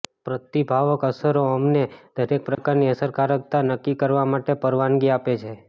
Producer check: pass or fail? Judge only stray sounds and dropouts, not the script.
fail